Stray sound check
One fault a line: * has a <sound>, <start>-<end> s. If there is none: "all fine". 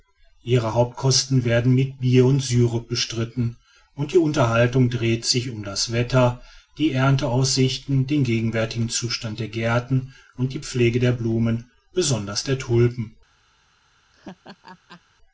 * has a laugh, 14.1-15.0 s